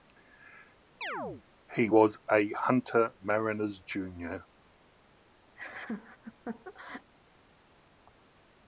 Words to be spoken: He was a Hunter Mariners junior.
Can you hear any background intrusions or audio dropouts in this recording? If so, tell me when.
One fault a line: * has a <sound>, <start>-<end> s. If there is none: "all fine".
* has a chirp, 1.0-1.4 s
* has a laugh, 5.6-7.1 s